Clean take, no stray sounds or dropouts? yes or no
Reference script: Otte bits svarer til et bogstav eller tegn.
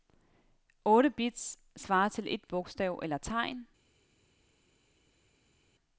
yes